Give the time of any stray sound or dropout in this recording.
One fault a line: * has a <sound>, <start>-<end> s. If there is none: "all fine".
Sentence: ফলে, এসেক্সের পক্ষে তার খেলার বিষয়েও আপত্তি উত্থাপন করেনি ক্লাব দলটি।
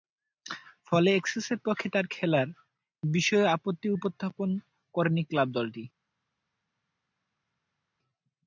all fine